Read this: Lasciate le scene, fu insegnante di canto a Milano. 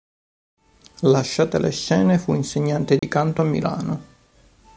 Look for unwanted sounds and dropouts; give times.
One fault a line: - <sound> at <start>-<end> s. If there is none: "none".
- dropout at 3.0-3.0 s